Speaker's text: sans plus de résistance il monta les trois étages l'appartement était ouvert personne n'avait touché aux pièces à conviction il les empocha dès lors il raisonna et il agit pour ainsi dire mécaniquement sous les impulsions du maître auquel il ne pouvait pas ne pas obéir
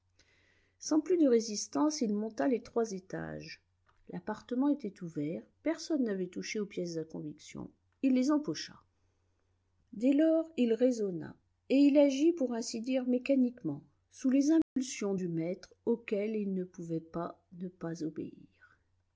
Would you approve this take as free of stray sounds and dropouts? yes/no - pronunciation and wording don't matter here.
no